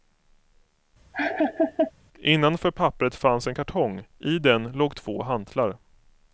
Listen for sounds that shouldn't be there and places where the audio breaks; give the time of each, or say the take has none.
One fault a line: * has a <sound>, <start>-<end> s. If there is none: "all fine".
* has a laugh, 1.1-1.9 s